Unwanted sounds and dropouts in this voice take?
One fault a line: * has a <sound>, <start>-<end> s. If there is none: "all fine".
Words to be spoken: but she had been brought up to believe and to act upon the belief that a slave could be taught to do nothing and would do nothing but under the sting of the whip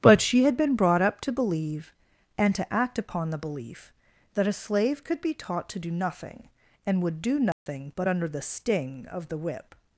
* has a dropout, 7.5-7.7 s